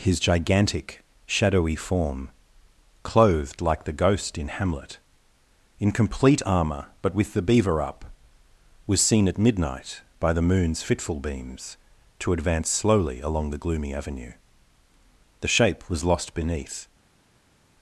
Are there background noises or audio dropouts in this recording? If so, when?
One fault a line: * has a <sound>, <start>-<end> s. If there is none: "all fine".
all fine